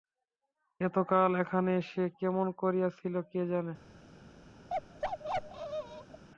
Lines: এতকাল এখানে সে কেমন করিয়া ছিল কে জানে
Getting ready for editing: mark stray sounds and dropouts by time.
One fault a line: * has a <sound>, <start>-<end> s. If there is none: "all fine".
* has a bark, 4.7-6.2 s